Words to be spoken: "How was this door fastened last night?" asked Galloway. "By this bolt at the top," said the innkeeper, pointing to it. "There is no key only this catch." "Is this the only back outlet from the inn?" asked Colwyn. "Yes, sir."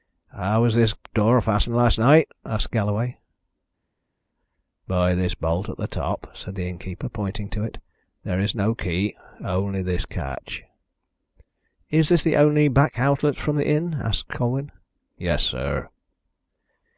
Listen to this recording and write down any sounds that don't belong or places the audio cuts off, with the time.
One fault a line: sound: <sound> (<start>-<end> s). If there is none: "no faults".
no faults